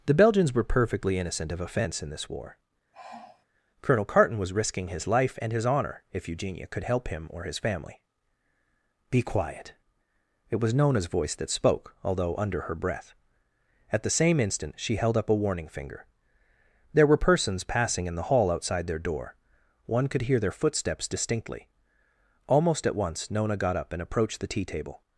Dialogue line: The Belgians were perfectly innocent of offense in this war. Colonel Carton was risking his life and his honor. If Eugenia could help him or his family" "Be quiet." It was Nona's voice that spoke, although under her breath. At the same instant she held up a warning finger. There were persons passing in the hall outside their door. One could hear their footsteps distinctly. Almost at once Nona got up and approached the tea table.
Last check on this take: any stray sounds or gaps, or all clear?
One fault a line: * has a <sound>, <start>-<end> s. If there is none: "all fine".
* has a sigh, 2.9-3.4 s